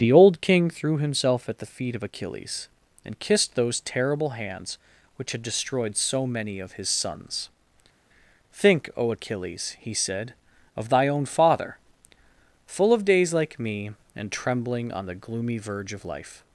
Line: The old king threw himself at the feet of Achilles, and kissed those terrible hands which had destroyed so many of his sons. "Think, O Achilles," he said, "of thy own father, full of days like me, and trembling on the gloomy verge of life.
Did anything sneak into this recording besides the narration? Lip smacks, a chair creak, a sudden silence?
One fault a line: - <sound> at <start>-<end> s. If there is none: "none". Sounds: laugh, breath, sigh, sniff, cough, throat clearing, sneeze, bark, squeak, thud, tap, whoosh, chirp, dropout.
none